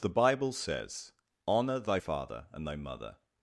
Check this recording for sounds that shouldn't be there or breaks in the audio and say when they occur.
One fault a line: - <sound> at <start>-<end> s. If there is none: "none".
none